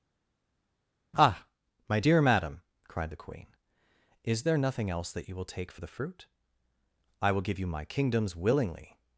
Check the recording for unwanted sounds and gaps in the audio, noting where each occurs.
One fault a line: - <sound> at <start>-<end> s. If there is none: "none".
none